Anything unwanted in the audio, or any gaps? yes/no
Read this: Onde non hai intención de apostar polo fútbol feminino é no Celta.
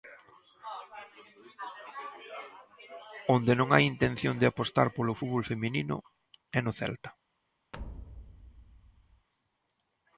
yes